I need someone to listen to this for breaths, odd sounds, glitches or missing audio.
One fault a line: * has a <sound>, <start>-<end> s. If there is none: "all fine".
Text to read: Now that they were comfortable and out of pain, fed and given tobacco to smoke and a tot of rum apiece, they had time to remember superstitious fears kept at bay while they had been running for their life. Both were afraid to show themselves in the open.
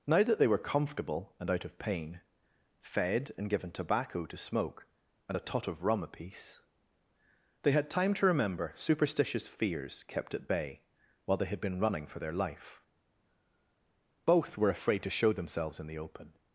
all fine